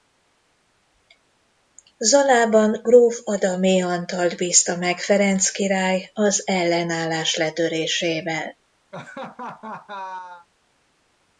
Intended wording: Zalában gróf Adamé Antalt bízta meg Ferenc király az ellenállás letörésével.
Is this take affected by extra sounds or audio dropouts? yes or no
yes